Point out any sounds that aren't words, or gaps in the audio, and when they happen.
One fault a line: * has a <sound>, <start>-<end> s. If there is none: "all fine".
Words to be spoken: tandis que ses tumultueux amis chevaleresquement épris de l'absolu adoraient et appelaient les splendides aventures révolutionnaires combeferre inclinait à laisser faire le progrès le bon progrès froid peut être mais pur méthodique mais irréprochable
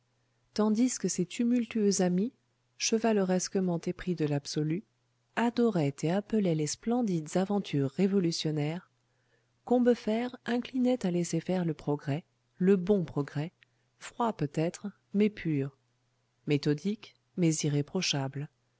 all fine